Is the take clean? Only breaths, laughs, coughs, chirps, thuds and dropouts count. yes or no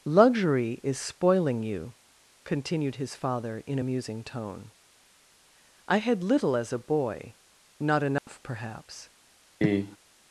no